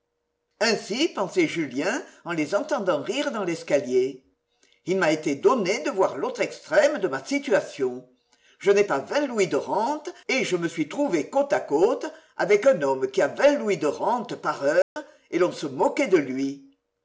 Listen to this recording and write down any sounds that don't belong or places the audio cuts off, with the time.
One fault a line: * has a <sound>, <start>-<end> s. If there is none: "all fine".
* has a dropout, 14.8-15.0 s